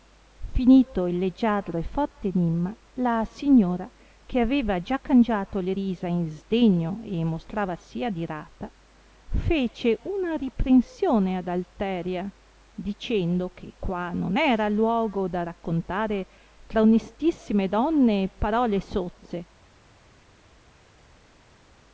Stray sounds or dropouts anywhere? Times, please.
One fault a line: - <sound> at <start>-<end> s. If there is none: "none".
none